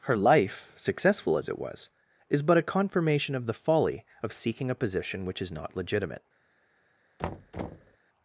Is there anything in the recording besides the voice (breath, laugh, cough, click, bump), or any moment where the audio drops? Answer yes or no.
yes